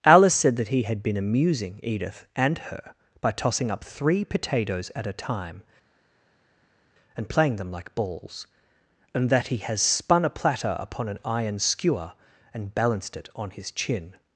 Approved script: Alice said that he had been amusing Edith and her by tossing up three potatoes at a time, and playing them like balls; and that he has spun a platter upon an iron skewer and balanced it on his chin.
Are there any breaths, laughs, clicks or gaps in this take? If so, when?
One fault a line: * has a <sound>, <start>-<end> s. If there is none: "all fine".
all fine